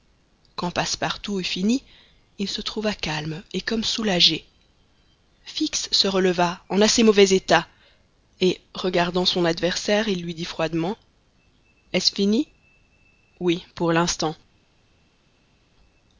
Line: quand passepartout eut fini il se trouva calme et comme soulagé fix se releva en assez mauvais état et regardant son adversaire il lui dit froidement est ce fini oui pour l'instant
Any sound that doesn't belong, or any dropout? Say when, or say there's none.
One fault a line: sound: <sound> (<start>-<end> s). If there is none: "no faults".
no faults